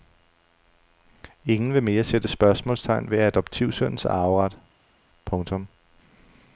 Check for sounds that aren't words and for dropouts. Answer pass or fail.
pass